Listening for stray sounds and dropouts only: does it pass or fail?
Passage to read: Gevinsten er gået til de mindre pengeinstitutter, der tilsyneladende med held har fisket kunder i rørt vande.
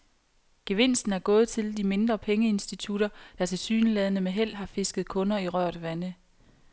pass